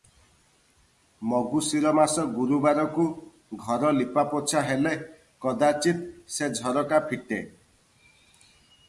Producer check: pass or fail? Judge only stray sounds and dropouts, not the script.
pass